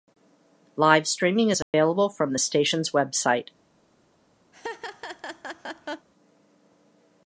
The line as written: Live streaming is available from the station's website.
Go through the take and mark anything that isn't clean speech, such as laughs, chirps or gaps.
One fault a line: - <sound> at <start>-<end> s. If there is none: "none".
- dropout at 1.6-1.7 s
- laugh at 4.5-6.1 s